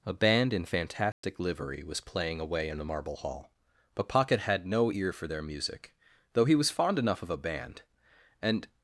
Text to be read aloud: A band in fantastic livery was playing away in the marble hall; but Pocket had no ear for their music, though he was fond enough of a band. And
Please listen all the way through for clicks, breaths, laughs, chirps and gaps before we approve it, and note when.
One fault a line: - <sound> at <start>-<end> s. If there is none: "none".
- dropout at 1.1-1.2 s